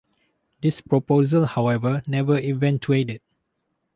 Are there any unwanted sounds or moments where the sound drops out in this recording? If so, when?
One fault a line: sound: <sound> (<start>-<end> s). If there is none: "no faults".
no faults